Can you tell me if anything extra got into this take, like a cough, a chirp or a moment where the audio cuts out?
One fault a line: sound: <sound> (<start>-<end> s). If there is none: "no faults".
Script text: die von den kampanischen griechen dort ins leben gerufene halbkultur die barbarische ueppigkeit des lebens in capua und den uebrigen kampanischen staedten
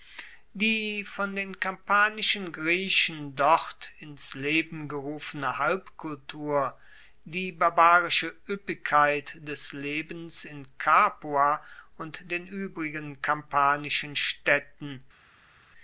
no faults